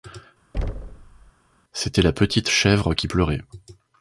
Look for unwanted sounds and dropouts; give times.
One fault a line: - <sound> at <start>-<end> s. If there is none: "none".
- thud at 0.5-1.3 s